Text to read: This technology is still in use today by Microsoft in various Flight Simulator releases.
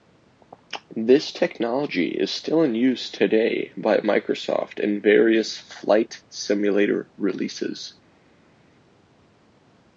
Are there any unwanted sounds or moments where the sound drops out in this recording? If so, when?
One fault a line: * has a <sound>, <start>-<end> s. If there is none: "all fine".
all fine